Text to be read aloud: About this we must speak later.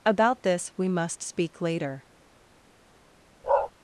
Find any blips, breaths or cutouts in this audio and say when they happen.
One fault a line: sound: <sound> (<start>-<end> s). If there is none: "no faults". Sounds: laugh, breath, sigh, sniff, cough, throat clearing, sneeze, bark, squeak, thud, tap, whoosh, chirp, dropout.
sound: bark (3.4-3.7 s)